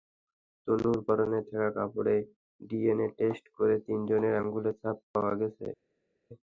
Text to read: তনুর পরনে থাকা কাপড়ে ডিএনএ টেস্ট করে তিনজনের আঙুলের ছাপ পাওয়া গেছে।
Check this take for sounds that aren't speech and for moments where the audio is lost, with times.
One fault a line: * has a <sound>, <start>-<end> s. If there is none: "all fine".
all fine